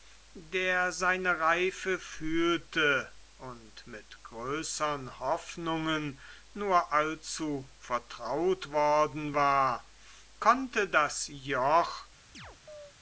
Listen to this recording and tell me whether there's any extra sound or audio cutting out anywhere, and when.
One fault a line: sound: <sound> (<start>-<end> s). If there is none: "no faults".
sound: chirp (12.3-12.9 s)